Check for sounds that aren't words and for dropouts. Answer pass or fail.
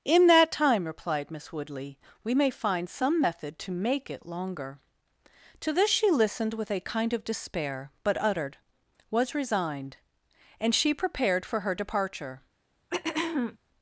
fail